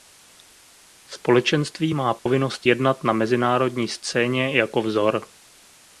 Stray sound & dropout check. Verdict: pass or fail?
fail